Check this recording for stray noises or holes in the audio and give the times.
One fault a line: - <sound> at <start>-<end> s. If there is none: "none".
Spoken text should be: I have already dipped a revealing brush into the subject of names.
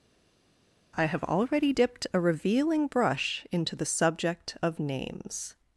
none